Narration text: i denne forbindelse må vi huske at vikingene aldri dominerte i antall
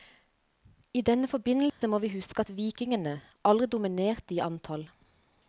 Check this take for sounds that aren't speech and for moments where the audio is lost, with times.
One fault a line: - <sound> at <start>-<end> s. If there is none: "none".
- dropout at 1.7-1.8 s